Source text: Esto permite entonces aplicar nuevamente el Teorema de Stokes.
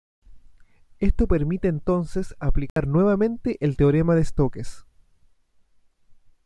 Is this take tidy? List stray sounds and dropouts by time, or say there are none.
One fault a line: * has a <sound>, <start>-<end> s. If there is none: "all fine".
* has a dropout, 2.7-2.8 s